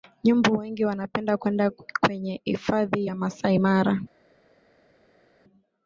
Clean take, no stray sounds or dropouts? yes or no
yes